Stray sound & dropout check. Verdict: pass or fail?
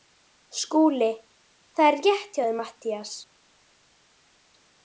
pass